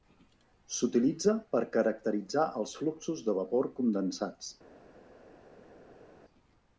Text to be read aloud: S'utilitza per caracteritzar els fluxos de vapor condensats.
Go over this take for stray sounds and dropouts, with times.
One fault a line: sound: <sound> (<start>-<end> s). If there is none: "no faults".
no faults